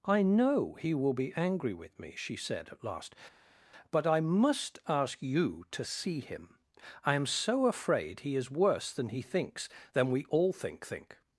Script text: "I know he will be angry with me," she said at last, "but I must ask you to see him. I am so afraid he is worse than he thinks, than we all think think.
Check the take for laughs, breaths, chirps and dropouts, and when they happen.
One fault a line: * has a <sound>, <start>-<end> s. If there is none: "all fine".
all fine